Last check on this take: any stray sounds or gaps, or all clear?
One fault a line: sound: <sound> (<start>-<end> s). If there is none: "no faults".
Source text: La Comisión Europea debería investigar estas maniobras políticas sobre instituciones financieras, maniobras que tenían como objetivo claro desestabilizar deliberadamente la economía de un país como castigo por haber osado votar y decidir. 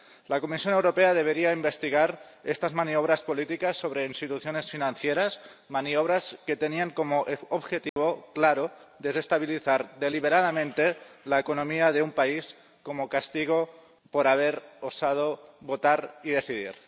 sound: dropout (7.9-8.0 s)